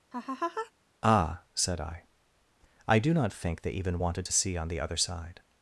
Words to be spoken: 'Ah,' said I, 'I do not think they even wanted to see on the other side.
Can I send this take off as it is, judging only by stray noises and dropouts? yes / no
no